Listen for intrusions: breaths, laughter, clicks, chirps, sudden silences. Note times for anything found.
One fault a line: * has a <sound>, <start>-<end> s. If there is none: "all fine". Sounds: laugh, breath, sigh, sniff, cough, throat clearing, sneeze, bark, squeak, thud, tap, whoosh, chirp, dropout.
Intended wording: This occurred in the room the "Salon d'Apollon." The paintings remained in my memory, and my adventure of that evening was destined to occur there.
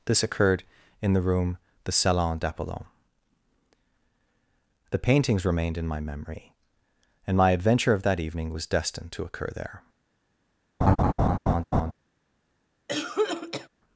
* has a laugh, 10.8-11.9 s
* has a cough, 12.9-13.7 s